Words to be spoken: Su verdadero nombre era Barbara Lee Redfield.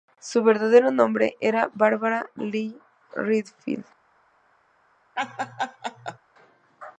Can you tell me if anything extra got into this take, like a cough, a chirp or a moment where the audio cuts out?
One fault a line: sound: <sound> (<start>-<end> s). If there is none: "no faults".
sound: laugh (5.2-6.2 s)